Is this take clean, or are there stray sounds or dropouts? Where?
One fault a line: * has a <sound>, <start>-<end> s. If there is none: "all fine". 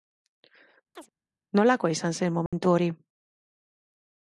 * has a chirp, 0.9-1.1 s
* has a dropout, 2.5-2.5 s